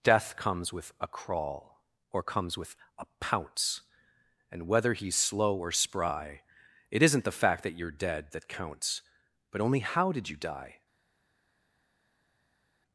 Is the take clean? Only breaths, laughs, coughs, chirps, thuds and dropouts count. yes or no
yes